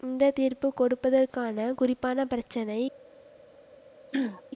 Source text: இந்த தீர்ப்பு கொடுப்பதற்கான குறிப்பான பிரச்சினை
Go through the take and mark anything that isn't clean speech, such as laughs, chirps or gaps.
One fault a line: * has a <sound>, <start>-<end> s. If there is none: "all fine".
* has a throat clearing, 4.1-4.4 s